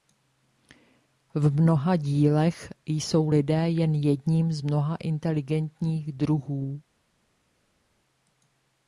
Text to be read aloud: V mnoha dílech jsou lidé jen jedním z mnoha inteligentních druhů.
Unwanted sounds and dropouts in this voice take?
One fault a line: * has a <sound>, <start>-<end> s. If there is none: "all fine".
all fine